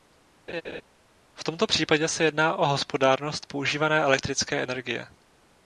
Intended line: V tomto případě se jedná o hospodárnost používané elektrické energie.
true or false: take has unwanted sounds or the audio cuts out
true